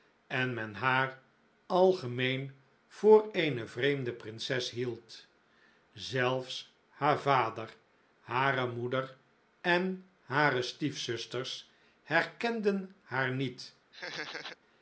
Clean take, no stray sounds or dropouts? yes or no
no